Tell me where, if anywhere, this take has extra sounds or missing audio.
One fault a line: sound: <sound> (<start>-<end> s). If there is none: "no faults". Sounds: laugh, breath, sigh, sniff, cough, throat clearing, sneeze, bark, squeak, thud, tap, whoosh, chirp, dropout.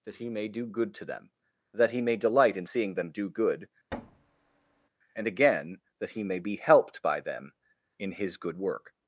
sound: thud (3.9-4.9 s)